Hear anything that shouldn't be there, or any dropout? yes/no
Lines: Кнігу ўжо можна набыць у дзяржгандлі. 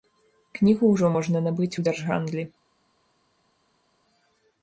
no